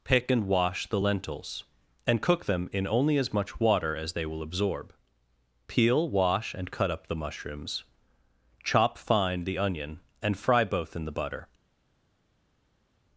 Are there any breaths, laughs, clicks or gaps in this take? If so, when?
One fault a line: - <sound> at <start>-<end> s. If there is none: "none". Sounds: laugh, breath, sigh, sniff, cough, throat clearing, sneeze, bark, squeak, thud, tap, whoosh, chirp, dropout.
none